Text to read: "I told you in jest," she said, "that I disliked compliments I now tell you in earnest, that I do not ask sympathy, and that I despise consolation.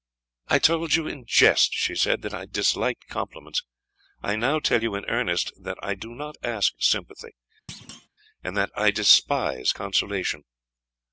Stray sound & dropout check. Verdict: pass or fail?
fail